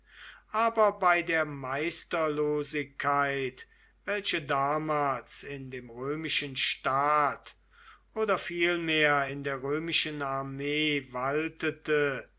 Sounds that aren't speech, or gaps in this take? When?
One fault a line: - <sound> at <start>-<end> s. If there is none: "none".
none